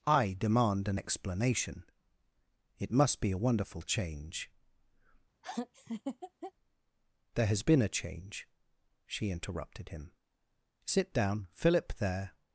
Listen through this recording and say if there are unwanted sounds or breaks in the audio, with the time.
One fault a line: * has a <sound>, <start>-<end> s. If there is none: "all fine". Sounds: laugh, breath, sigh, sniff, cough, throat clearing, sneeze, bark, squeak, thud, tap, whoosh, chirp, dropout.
* has a laugh, 5.4-6.5 s